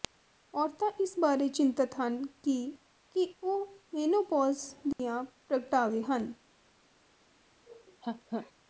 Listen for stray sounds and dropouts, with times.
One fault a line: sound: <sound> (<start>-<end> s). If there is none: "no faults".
sound: dropout (4.9-5.0 s)
sound: laugh (7.7-8.5 s)